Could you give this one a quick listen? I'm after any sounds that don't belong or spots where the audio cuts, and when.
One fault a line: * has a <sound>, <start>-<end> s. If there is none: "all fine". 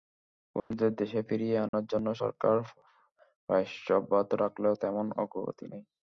* has a dropout, 0.6-0.7 s
* has a dropout, 1.7-1.7 s